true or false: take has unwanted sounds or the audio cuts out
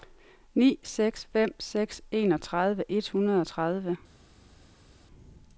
false